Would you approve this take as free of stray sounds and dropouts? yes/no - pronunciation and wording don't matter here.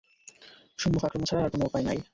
yes